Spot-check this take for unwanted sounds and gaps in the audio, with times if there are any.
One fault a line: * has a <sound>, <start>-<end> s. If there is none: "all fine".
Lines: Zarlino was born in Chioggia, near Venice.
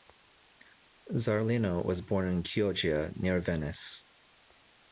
all fine